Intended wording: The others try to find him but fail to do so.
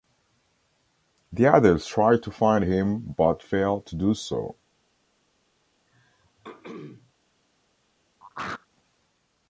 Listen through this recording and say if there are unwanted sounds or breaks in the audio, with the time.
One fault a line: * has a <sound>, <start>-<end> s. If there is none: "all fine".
* has a throat clearing, 5.9-7.1 s
* has a throat clearing, 8.2-8.7 s